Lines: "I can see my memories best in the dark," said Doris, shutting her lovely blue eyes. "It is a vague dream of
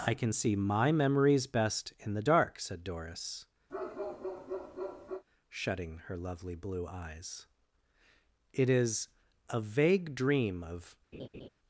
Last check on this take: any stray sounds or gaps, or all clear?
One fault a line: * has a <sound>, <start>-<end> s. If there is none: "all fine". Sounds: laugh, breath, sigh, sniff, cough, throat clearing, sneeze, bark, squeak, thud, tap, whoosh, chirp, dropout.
* has a bark, 3.7-5.2 s
* has a laugh, 11.1-11.5 s